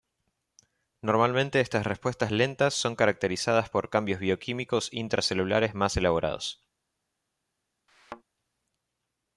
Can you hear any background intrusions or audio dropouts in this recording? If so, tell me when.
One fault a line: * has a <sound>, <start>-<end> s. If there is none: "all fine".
* has a thud, 7.9-8.2 s